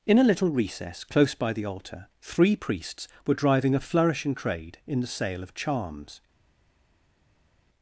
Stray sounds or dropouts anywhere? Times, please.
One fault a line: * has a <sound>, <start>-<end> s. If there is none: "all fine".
all fine